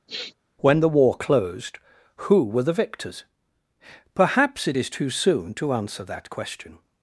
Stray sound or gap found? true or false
true